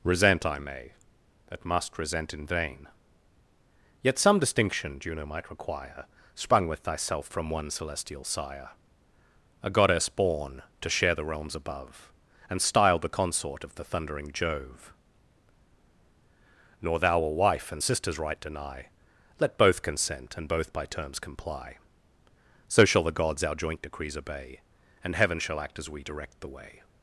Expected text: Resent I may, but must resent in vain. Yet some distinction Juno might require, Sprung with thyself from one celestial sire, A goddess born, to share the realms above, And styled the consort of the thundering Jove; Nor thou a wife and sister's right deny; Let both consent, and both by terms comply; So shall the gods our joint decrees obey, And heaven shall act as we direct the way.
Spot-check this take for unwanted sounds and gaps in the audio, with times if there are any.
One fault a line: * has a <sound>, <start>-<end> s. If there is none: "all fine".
all fine